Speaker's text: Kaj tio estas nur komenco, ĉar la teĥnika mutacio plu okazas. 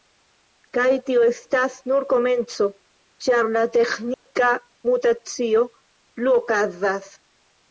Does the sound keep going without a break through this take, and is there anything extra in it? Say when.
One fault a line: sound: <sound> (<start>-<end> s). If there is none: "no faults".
sound: dropout (4.1-4.3 s)